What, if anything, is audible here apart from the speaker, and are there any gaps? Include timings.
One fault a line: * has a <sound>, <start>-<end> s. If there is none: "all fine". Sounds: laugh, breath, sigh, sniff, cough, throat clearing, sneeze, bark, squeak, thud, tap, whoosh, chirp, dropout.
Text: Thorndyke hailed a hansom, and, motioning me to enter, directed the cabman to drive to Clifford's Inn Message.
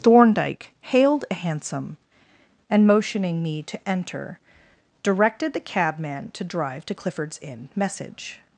all fine